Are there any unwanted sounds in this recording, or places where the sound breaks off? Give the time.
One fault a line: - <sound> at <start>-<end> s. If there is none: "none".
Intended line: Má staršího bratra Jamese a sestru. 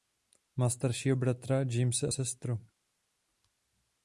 none